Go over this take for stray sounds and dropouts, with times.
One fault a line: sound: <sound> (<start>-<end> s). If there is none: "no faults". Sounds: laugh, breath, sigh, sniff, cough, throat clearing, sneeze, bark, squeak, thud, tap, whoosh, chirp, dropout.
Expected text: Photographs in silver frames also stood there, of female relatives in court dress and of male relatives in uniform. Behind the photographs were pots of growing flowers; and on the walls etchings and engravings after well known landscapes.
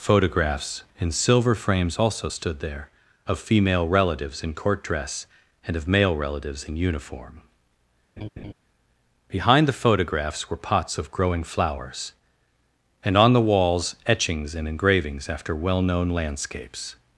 sound: laugh (8.2-8.5 s)